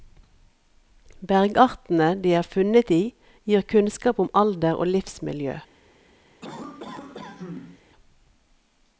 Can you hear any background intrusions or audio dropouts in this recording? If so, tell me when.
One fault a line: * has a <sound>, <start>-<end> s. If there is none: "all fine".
* has a cough, 6.4-7.8 s